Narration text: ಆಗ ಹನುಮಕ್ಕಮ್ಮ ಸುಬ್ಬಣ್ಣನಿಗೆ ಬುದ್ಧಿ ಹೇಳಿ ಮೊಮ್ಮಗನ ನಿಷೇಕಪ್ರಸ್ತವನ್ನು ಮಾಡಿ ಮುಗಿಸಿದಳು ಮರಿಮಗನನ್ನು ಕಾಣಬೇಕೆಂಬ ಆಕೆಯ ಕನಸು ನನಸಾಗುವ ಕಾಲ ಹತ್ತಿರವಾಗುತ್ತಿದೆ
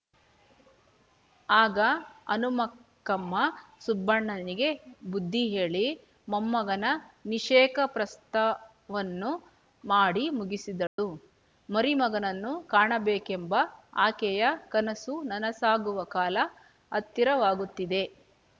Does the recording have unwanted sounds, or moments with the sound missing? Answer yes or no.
yes